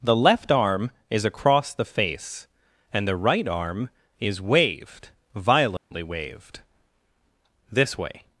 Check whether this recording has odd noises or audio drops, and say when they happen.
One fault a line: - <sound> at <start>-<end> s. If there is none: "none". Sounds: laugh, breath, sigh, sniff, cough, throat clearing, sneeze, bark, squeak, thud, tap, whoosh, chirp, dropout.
- dropout at 5.8-5.9 s